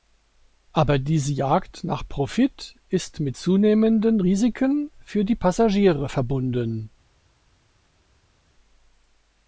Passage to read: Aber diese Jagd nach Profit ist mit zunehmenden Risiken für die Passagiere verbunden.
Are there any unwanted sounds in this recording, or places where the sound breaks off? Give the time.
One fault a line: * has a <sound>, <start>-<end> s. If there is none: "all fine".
all fine